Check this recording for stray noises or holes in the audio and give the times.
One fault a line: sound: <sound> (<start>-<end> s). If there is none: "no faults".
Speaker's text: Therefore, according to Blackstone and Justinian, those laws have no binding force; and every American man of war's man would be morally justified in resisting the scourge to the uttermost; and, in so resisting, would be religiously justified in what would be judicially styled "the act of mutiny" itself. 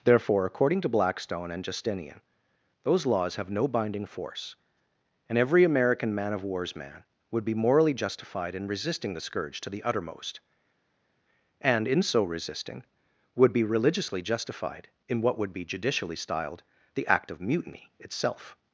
no faults